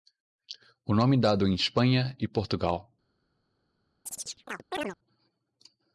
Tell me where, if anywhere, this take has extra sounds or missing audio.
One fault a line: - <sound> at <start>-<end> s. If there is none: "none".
- chirp at 4.1-5.0 s